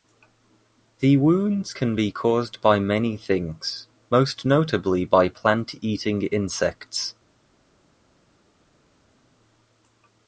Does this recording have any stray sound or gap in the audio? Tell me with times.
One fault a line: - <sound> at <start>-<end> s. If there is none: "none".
none